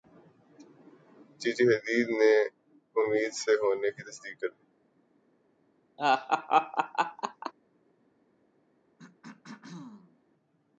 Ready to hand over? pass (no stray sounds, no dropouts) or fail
fail